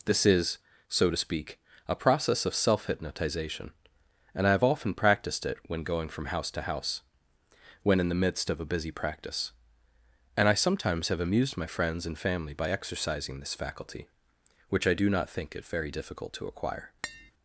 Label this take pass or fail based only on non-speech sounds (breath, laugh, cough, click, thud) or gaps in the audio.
fail